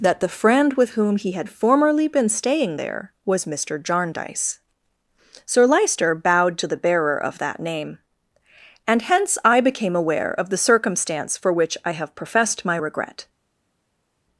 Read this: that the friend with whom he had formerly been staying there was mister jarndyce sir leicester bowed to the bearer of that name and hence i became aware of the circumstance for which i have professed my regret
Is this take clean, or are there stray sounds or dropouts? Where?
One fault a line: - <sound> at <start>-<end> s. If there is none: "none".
none